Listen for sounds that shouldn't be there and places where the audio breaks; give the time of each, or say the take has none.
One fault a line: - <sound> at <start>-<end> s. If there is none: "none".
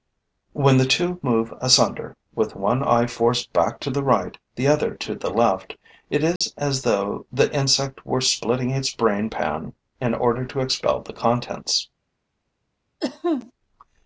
- dropout at 6.4-6.4 s
- cough at 13.0-13.5 s